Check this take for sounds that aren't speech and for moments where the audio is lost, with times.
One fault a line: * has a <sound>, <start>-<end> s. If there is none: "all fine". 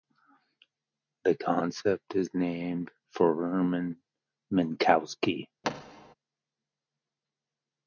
* has a thud, 5.6-6.1 s